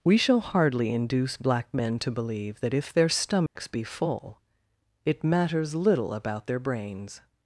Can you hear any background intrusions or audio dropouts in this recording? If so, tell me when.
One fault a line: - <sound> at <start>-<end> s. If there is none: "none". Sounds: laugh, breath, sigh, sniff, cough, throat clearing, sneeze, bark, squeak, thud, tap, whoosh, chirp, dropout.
- dropout at 3.5-3.6 s